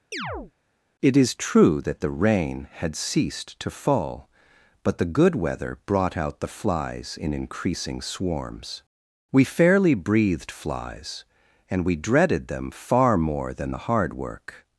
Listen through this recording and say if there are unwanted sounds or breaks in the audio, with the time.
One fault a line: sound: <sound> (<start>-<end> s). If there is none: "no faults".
sound: chirp (0.1-0.5 s)